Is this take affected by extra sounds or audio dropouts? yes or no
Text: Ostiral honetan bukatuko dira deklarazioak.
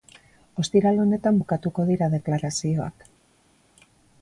no